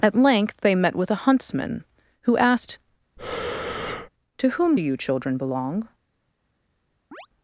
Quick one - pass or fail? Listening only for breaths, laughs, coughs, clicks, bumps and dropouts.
fail